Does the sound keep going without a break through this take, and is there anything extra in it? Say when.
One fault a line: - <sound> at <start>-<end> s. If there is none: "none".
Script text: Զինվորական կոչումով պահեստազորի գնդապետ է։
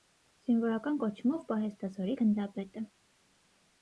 none